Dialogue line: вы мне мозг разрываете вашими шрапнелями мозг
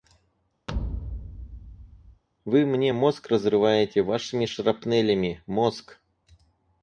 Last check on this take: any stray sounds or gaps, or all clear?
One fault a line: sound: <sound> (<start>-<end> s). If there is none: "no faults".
sound: thud (0.7-2.2 s)